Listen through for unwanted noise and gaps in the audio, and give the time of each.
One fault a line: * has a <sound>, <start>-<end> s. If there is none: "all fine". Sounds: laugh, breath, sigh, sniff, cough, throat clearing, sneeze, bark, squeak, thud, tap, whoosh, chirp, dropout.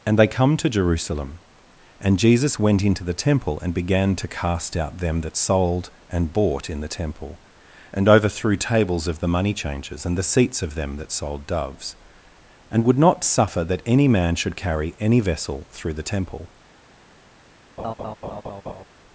* has a laugh, 17.8-18.8 s